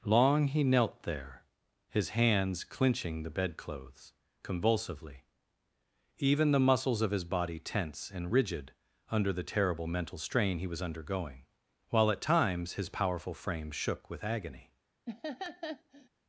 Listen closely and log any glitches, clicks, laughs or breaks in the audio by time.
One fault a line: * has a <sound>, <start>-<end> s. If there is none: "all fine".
* has a laugh, 15.1-16.1 s